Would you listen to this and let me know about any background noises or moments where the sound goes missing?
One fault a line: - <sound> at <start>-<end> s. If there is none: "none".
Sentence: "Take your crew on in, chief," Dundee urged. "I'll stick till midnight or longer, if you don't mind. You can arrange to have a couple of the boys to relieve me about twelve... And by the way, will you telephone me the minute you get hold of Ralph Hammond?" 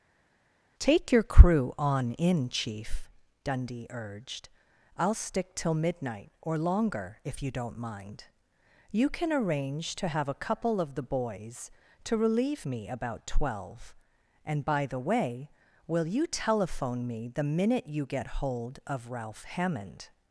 none